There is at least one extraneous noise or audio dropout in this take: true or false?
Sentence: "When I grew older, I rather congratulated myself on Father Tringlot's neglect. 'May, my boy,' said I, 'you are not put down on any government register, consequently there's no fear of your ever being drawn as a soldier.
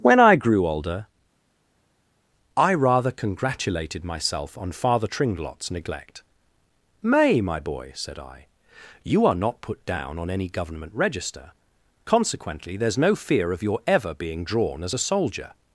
false